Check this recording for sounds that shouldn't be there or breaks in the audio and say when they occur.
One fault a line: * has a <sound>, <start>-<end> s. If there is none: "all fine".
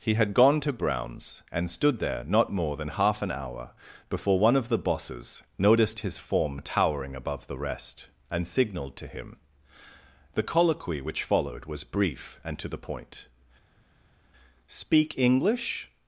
all fine